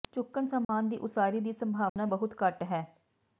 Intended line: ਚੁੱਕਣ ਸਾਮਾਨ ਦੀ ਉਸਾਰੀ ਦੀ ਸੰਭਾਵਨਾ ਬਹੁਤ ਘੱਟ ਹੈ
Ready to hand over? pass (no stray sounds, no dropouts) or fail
fail